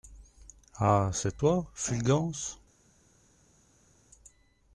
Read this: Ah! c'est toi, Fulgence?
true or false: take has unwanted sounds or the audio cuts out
false